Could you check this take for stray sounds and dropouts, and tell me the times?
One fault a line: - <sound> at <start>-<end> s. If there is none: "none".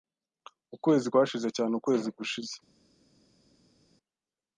none